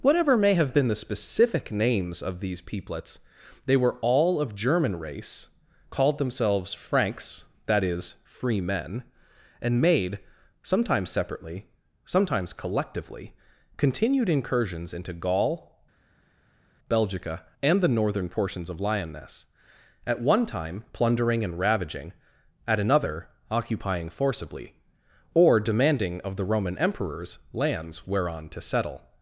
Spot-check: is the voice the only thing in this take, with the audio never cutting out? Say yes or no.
yes